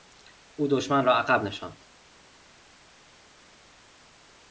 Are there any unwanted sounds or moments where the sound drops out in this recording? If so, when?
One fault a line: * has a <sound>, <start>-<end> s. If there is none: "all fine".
all fine